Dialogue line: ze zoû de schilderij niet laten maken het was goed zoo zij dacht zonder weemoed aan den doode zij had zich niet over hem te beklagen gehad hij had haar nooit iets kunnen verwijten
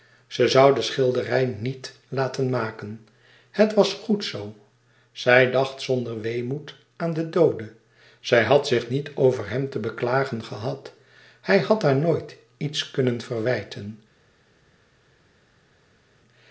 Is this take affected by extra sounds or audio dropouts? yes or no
no